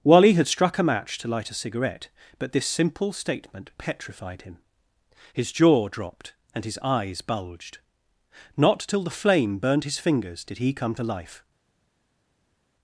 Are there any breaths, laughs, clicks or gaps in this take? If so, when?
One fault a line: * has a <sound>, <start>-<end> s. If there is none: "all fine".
all fine